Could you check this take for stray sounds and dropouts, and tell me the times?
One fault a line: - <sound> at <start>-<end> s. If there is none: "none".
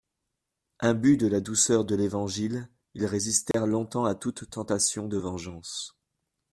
- dropout at 3.5-3.5 s